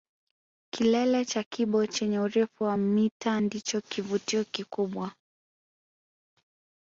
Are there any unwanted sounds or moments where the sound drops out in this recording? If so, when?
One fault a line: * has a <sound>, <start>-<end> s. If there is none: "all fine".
all fine